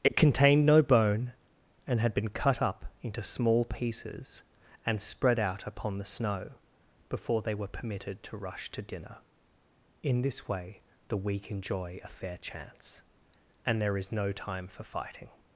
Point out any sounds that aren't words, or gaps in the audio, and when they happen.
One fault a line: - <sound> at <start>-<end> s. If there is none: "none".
none